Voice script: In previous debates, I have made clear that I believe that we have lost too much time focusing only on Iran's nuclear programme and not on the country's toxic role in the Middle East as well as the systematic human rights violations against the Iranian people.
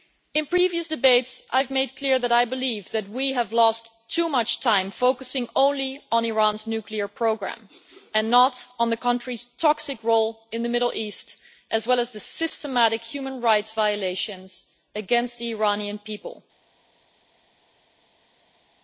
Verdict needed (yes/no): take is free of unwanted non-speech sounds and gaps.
yes